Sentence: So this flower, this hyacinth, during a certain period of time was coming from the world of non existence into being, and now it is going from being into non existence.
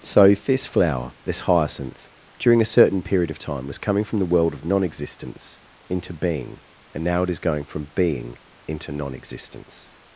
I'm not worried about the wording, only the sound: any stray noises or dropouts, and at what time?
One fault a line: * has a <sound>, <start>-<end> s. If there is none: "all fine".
all fine